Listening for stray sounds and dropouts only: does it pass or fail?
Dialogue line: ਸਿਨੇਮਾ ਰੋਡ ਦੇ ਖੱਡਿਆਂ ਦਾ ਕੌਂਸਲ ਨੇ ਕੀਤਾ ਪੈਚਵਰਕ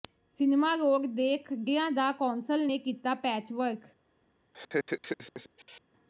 fail